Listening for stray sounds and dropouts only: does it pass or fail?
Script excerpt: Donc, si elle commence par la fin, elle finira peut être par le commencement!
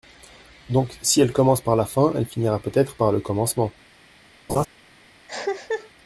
fail